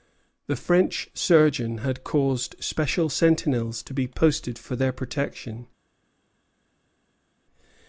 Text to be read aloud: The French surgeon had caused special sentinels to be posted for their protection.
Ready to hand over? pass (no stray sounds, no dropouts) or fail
pass